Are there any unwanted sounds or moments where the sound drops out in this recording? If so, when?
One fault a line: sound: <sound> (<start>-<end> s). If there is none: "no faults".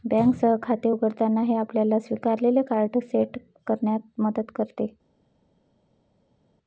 no faults